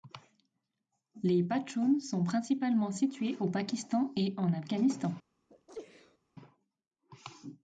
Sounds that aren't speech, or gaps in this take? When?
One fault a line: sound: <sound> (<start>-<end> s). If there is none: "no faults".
sound: sneeze (5.5-6.2 s)